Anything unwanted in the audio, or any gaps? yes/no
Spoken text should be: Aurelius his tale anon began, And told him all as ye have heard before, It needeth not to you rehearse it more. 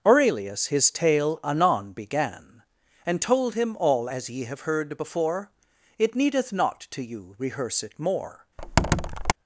yes